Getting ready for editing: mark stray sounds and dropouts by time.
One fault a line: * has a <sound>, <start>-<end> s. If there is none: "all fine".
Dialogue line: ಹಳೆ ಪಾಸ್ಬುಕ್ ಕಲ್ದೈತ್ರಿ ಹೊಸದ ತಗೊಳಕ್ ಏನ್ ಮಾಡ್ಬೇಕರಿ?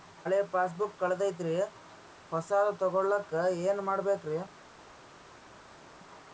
all fine